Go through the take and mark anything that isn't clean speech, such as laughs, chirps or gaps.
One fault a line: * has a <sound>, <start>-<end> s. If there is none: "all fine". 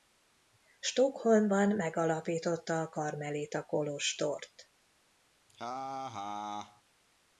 * has a laugh, 5.5-6.8 s